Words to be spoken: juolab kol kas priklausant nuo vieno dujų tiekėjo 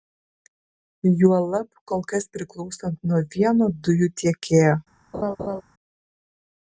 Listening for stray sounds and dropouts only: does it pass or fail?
fail